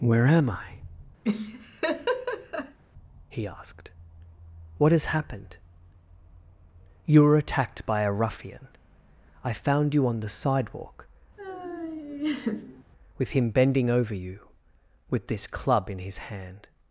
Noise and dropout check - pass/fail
fail